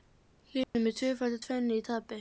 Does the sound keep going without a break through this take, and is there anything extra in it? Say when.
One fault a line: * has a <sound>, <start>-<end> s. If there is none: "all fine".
* has a dropout, 0.6-0.7 s